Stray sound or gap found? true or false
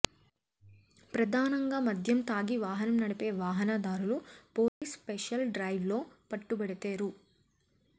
true